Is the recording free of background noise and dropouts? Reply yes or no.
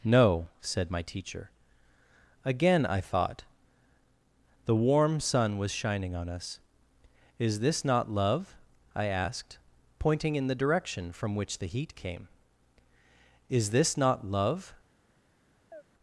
no